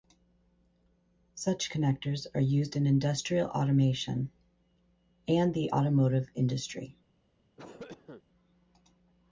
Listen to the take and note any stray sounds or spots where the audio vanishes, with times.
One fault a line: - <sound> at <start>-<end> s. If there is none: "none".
- cough at 7.6-8.2 s